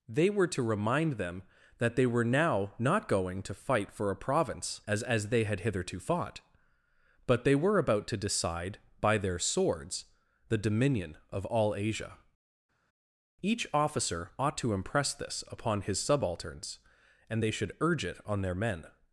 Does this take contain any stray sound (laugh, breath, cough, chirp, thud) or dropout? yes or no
no